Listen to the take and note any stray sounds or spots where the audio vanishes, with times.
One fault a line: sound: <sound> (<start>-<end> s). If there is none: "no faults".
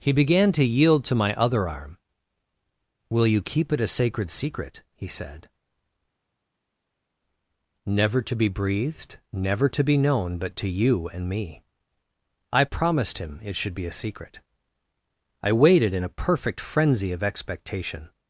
no faults